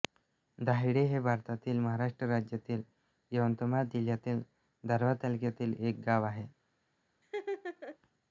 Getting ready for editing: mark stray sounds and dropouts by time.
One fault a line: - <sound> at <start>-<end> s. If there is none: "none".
- laugh at 7.2-8.0 s